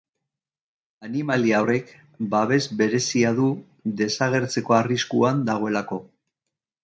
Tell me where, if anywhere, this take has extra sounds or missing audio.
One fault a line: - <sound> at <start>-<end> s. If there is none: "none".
none